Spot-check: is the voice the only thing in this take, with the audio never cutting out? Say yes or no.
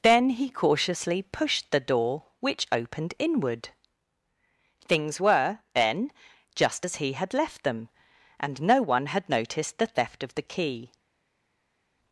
yes